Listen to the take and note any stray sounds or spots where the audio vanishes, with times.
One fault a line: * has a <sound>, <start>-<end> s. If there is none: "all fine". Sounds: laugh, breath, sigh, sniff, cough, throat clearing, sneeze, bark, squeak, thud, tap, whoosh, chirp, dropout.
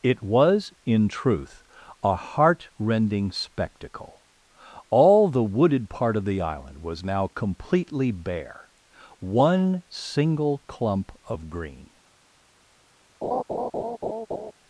* has a laugh, 13.2-14.5 s